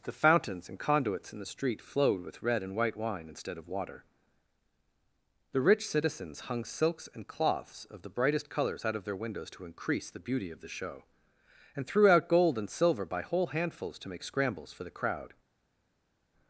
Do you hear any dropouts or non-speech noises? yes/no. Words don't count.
no